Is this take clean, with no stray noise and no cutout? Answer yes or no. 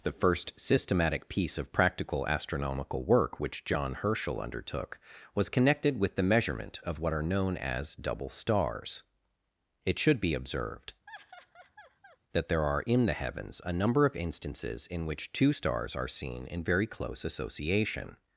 no